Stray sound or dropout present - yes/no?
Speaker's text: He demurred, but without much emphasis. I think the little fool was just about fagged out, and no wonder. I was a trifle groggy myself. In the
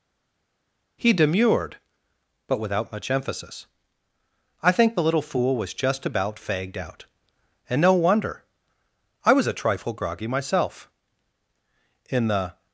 no